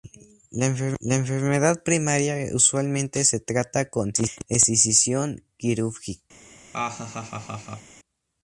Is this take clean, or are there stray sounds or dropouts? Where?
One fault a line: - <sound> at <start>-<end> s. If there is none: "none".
- laugh at 6.7-8.0 s